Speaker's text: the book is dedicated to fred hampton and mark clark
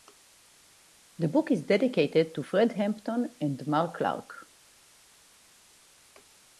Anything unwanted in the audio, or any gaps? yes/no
no